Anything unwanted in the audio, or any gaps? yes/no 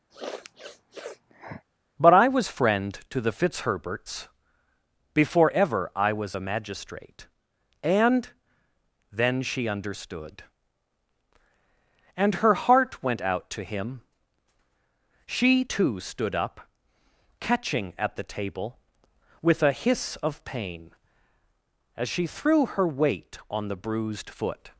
yes